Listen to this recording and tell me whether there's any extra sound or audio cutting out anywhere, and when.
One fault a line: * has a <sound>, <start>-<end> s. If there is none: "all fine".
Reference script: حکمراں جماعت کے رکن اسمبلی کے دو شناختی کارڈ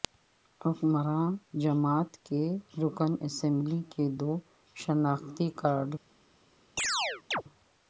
* has a chirp, 6.8-7.4 s